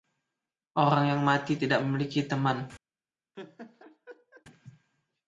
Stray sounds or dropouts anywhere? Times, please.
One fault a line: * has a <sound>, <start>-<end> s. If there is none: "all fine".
* has a laugh, 3.3-4.4 s